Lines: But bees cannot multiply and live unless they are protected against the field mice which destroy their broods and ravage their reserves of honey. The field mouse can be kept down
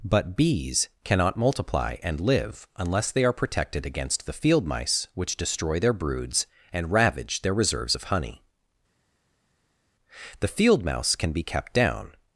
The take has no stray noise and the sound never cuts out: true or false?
true